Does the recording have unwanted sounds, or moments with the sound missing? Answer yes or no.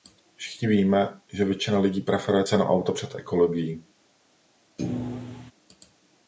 yes